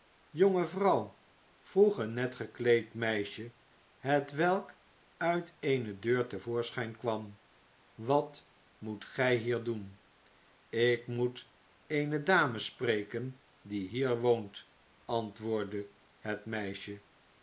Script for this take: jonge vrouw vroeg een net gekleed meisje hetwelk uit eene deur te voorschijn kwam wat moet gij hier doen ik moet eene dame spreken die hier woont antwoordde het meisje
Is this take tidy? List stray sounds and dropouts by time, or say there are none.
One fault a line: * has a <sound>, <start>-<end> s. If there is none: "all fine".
all fine